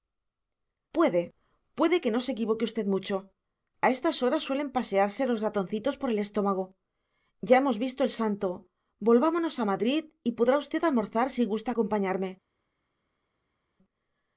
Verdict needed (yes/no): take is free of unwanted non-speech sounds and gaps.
yes